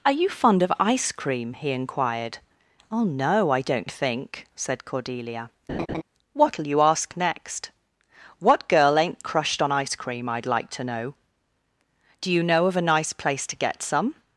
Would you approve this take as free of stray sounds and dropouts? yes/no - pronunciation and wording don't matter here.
no